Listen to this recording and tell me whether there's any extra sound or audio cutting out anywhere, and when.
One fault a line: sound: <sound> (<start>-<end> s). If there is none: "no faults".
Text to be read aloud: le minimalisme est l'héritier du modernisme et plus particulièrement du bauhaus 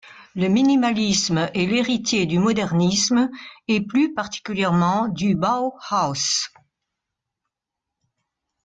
no faults